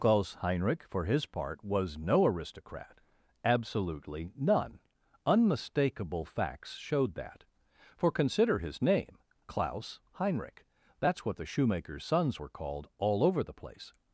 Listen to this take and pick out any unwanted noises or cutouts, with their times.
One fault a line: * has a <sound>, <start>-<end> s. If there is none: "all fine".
all fine